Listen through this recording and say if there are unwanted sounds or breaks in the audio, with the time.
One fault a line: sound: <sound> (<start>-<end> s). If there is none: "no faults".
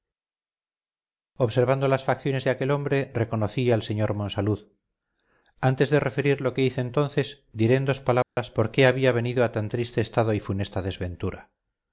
sound: dropout (8.2-8.4 s)